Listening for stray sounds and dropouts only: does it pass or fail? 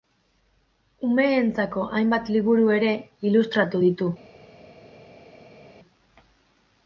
pass